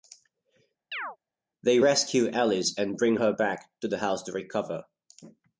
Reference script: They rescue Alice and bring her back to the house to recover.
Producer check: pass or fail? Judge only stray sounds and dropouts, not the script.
fail